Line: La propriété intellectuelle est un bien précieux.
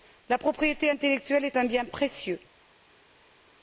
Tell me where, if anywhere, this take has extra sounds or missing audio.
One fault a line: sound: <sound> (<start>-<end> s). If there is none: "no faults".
no faults